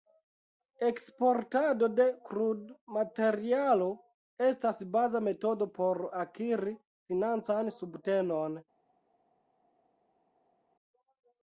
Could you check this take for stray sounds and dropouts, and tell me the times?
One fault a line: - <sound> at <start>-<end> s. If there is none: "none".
none